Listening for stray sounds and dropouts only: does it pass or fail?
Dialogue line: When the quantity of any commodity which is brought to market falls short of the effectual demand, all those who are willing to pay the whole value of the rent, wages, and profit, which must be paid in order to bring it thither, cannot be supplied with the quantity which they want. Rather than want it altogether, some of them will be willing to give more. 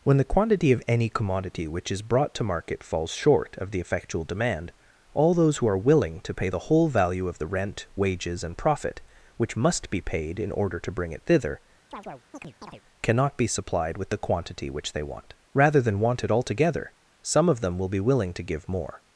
fail